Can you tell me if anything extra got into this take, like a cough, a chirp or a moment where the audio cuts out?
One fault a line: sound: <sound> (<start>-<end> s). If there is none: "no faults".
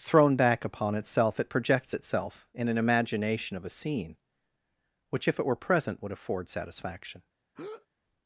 sound: breath (7.5-7.9 s)